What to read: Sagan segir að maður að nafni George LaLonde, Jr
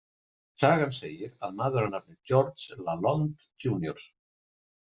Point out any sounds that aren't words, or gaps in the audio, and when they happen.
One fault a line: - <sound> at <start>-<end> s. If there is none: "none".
none